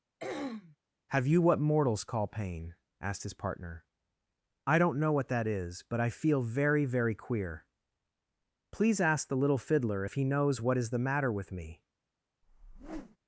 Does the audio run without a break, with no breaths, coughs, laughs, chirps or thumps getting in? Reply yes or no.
no